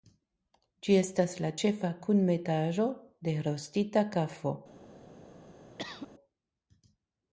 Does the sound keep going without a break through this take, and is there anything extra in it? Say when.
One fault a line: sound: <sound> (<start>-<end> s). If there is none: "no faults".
sound: cough (5.8-6.1 s)